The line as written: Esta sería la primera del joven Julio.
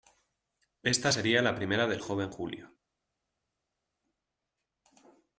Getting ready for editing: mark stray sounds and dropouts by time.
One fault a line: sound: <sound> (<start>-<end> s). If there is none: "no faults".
no faults